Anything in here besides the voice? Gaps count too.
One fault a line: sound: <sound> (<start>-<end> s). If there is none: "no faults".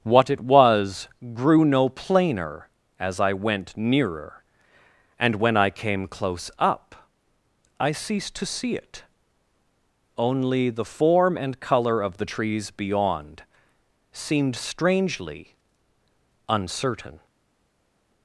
no faults